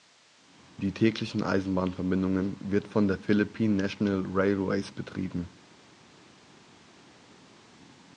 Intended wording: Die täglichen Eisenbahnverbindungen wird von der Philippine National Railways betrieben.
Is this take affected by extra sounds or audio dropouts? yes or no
no